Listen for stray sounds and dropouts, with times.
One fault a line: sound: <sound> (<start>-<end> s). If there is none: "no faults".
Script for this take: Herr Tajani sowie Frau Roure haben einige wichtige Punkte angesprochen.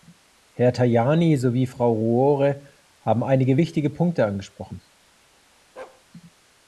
sound: bark (5.8-6.0 s)